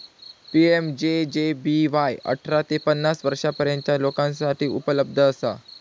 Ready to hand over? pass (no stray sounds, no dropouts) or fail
pass